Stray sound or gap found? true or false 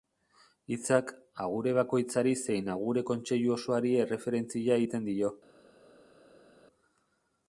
false